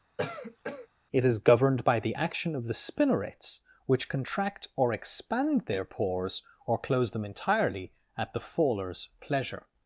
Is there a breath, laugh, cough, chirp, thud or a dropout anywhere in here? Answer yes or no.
yes